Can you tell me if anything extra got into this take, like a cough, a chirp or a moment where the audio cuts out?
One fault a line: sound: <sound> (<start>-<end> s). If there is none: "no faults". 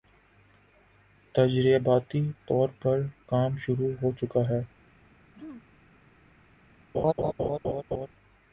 sound: throat clearing (5.3-5.6 s)
sound: laugh (6.9-8.1 s)